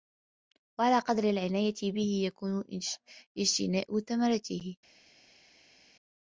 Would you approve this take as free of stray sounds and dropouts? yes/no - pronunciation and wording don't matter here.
yes